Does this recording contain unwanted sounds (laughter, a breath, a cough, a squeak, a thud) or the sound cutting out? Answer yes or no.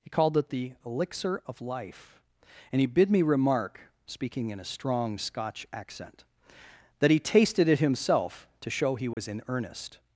yes